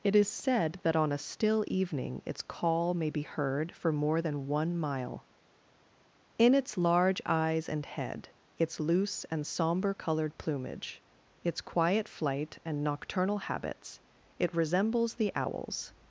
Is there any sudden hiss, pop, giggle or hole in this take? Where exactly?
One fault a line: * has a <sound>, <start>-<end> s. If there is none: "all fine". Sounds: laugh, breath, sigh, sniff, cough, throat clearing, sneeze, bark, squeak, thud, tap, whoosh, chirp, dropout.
all fine